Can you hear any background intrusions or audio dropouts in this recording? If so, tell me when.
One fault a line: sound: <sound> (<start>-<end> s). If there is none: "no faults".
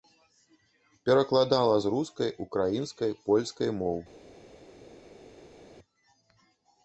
no faults